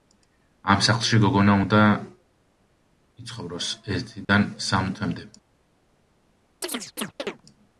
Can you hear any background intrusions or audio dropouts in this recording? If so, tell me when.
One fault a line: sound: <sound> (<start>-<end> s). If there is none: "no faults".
sound: dropout (4.2-4.3 s)
sound: chirp (6.6-7.4 s)